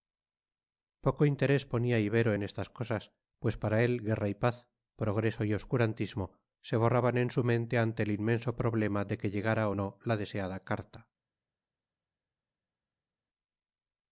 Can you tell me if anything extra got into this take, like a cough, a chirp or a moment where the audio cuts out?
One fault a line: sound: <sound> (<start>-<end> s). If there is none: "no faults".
no faults